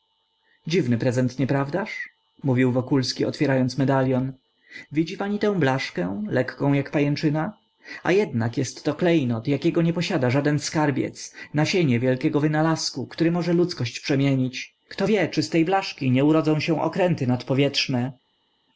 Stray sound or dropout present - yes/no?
no